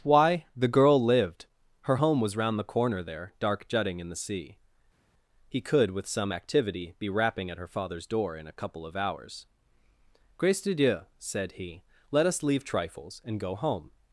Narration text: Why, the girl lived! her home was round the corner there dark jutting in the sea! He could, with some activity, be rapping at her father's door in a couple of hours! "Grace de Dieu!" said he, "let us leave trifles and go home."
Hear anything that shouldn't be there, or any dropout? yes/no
no